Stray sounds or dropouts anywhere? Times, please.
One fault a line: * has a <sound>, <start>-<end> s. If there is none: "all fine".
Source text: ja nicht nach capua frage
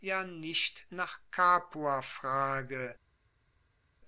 all fine